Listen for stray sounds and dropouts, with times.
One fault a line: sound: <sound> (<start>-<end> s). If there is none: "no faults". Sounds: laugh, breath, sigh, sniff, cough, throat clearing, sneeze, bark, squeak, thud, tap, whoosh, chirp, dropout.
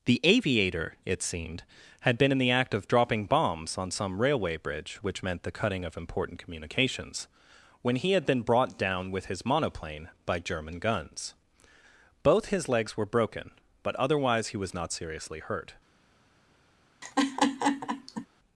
sound: laugh (17.0-18.3 s)